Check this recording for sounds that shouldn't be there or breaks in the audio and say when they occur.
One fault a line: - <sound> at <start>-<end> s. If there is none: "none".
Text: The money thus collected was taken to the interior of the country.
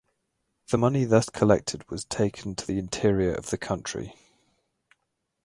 none